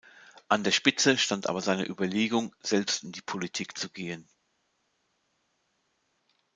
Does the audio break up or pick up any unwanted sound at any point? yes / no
no